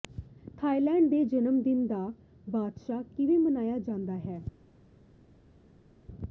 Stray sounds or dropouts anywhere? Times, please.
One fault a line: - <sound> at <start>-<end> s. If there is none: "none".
none